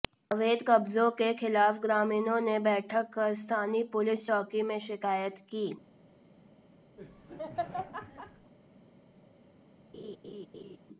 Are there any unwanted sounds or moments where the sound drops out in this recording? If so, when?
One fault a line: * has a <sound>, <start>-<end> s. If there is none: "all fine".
* has a laugh, 7.0-8.5 s
* has a laugh, 9.9-10.8 s